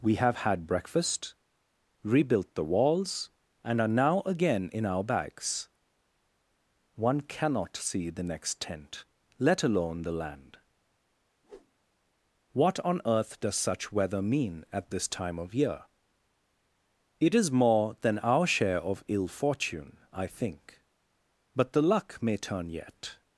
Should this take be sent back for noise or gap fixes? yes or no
yes